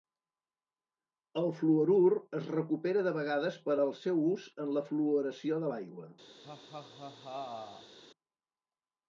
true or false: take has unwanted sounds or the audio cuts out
true